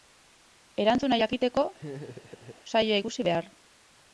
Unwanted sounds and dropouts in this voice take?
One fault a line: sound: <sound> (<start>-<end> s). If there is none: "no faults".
sound: laugh (1.8-2.6 s)